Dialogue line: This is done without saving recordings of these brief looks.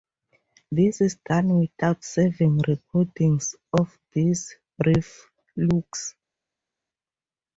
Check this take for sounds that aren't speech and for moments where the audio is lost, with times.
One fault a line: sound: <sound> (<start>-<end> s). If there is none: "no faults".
no faults